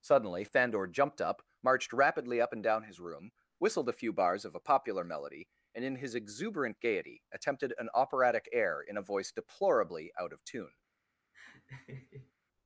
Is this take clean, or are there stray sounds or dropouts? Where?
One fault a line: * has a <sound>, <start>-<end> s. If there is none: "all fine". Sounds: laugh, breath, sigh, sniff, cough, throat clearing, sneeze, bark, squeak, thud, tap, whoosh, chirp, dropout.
* has a laugh, 11.3-12.3 s